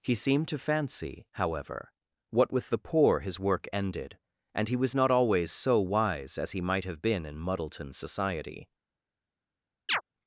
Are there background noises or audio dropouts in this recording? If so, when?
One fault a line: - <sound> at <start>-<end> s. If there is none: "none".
- chirp at 9.9-10.0 s